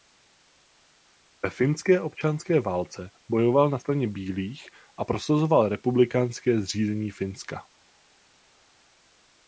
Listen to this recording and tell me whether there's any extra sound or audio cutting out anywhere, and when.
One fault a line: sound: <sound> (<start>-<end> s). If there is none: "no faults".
no faults